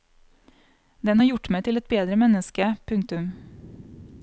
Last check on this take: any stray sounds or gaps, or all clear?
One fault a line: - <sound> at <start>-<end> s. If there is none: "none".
none